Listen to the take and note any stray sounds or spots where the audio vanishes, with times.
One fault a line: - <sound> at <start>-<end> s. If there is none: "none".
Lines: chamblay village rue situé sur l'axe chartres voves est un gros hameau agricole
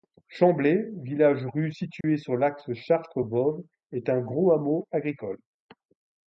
- dropout at 2.0-2.0 s